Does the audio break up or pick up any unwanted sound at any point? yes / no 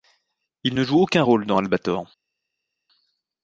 no